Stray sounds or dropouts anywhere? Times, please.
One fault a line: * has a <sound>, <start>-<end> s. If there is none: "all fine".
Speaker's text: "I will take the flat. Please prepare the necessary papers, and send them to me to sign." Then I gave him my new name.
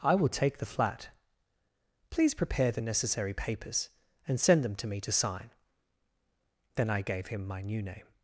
all fine